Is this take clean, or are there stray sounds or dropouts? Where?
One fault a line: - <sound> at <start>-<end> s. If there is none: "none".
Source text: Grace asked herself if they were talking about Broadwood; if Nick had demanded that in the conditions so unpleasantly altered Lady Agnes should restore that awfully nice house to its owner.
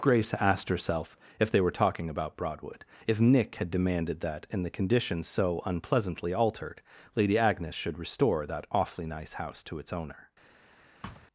- thud at 11.0-11.3 s